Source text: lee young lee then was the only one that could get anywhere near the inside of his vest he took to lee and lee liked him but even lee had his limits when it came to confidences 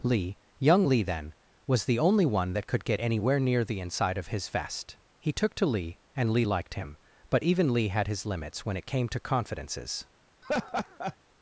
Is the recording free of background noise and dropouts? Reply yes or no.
no